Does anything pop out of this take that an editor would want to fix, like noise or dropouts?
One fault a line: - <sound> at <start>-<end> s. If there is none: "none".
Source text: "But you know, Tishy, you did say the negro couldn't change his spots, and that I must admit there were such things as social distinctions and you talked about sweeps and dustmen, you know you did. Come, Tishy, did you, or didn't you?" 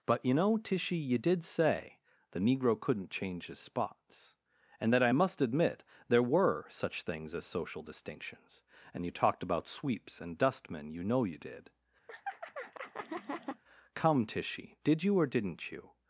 - laugh at 12.1-13.6 s